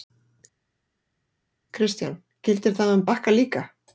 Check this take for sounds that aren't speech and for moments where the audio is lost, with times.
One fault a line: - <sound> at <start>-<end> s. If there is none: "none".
none